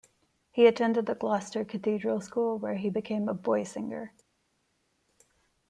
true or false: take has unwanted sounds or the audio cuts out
false